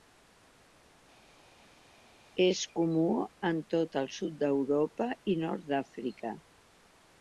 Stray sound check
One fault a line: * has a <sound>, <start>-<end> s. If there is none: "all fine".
all fine